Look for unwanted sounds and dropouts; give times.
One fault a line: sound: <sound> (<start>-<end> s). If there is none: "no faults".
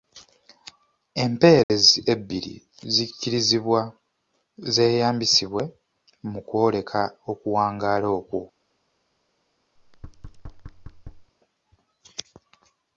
sound: dropout (1.6-1.7 s)
sound: thud (9.8-11.3 s)